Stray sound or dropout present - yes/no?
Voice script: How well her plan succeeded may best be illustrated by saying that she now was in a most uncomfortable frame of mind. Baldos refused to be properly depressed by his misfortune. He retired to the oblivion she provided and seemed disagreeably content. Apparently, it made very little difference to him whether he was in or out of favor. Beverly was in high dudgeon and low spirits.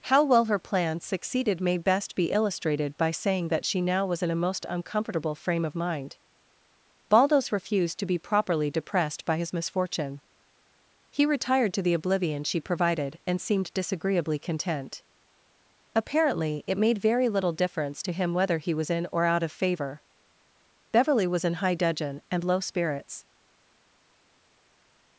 no